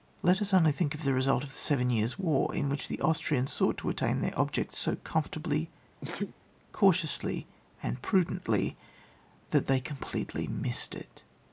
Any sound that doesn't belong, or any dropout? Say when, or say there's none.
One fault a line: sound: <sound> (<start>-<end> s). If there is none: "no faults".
sound: sneeze (6.0-6.3 s)